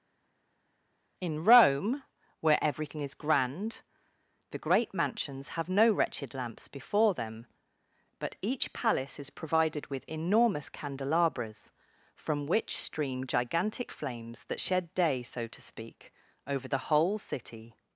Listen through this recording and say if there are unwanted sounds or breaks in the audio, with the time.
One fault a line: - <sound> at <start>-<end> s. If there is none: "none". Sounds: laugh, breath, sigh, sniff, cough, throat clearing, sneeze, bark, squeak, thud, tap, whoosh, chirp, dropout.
none